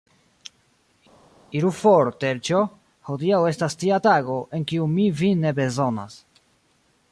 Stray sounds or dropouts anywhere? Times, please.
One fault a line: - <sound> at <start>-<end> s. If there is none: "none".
none